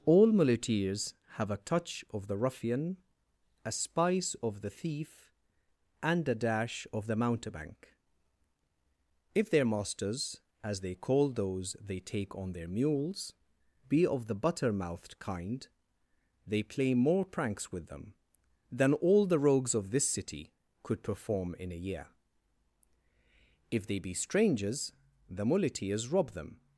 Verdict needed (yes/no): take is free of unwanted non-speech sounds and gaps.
yes